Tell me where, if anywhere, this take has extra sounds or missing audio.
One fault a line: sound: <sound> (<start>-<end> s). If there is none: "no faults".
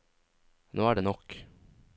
no faults